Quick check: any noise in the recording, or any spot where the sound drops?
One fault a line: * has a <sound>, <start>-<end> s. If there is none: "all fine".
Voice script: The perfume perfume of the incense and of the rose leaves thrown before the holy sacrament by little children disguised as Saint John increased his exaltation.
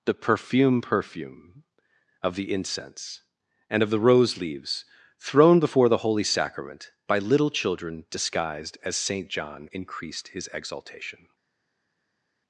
all fine